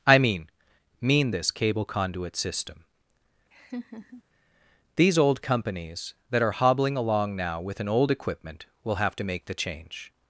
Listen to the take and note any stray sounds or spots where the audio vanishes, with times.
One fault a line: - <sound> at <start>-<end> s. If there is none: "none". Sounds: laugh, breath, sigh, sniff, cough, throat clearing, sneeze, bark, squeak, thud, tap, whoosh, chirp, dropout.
- laugh at 3.5-4.2 s